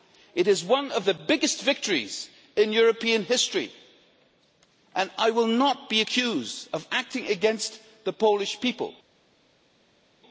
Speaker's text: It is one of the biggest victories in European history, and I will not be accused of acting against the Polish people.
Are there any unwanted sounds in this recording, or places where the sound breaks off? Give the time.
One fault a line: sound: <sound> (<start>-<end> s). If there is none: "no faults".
no faults